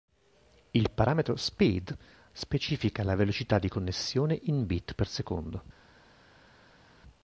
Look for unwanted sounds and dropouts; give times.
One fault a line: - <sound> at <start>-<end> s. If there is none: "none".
none